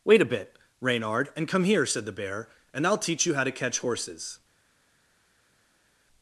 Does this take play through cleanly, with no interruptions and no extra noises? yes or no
yes